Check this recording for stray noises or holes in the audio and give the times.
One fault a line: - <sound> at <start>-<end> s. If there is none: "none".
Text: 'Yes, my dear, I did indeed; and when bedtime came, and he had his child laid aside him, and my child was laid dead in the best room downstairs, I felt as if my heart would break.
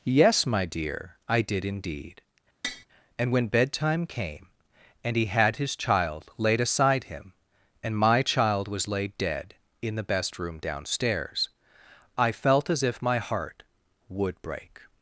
- tap at 2.6-2.9 s